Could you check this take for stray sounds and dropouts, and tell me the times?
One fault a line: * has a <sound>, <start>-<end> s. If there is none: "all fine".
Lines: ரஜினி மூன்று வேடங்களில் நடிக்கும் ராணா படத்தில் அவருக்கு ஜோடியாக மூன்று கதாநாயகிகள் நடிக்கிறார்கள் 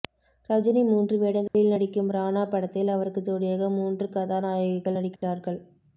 * has a dropout, 1.5-1.5 s
* has a dropout, 5.2-5.2 s